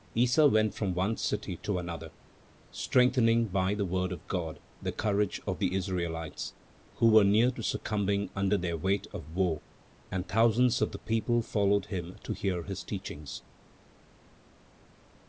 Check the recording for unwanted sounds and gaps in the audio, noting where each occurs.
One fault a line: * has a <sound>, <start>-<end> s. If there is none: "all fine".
all fine